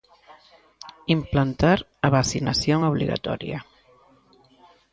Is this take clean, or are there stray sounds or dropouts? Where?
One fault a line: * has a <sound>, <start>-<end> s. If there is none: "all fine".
all fine